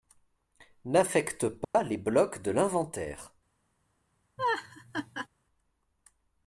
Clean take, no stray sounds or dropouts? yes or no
no